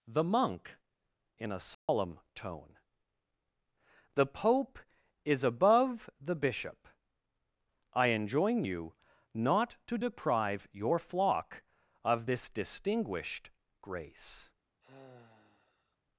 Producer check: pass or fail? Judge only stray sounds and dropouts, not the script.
fail